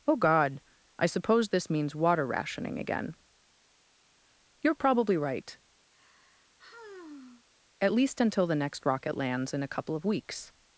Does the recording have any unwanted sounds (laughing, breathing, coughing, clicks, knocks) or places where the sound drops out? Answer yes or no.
yes